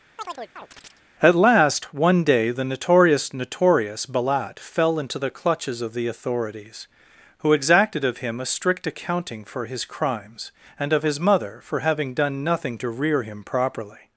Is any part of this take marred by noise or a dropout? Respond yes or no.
yes